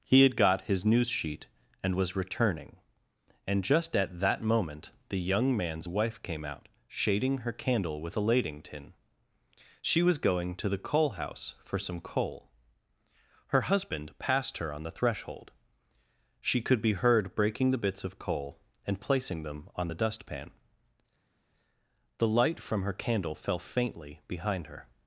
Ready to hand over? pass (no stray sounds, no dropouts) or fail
pass